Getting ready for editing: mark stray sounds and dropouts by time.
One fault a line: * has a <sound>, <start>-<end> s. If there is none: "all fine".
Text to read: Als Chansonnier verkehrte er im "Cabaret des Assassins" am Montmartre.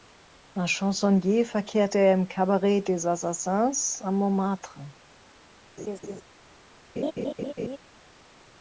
* has a laugh, 5.8-6.2 s
* has a laugh, 7.0-7.8 s